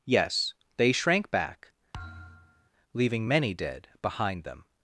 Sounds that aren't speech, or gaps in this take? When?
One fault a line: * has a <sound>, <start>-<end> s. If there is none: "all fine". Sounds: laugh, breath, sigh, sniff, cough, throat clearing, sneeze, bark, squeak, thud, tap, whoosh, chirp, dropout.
* has a thud, 1.9-2.7 s